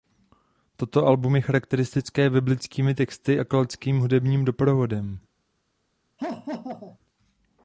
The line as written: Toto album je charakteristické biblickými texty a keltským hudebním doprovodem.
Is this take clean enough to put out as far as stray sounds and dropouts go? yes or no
no